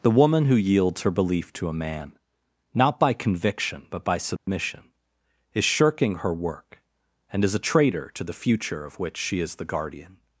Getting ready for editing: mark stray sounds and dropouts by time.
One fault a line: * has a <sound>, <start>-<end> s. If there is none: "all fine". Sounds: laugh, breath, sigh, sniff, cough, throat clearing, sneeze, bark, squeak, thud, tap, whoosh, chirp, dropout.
* has a dropout, 4.4-4.5 s